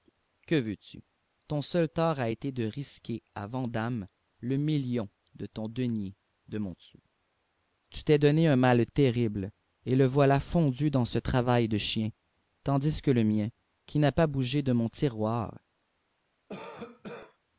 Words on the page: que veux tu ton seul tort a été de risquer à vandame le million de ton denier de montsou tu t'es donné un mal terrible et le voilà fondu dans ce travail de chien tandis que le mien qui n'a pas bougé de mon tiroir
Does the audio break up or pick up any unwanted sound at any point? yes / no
yes